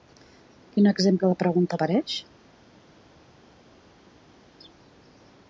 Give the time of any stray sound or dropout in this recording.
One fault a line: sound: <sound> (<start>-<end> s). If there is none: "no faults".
no faults